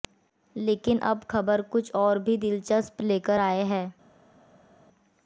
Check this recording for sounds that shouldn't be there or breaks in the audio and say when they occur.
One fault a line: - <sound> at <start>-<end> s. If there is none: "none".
none